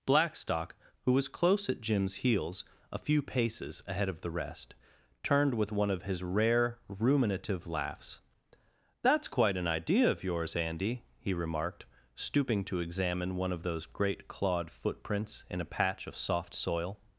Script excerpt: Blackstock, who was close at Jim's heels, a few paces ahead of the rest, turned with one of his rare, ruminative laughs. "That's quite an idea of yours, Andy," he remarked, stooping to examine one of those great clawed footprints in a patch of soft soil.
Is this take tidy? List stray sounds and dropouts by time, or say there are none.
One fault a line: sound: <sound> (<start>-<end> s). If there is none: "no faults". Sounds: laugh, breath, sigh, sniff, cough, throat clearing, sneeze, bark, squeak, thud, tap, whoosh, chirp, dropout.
no faults